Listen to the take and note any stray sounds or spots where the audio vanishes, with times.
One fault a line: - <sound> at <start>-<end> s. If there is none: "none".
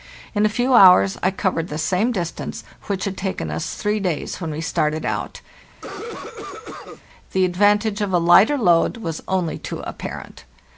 - cough at 5.7-7.0 s